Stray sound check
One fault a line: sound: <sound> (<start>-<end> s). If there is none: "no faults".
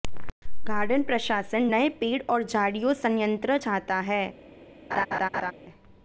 sound: laugh (4.9-5.5 s)